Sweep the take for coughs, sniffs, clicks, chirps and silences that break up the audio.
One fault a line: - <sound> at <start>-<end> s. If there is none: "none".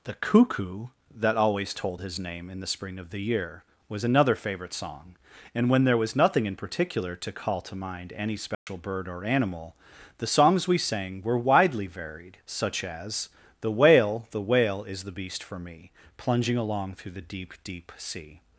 - dropout at 8.5-8.7 s